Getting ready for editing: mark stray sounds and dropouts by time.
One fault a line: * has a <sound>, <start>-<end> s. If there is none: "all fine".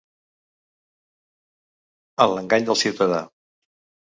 all fine